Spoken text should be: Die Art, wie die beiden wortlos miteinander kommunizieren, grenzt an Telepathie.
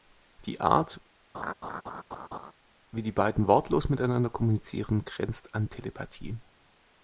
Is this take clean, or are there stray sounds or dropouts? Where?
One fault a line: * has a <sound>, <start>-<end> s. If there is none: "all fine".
* has a laugh, 1.3-2.5 s